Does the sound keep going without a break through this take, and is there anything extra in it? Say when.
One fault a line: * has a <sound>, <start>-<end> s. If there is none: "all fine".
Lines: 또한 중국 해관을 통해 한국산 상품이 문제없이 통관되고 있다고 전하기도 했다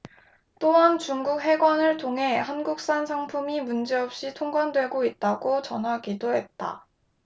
all fine